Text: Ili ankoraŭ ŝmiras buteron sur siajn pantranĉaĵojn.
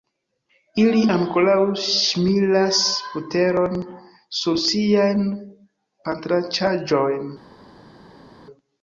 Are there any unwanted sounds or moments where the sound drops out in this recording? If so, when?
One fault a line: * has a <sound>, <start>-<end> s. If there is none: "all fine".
all fine